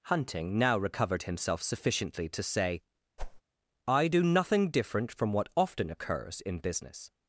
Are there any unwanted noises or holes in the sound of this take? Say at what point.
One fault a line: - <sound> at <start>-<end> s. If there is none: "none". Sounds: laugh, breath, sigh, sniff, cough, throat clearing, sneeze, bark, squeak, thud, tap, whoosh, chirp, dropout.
- whoosh at 3.2-3.4 s